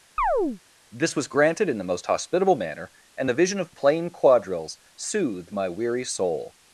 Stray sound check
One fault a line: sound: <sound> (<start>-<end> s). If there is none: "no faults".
sound: chirp (0.2-0.6 s)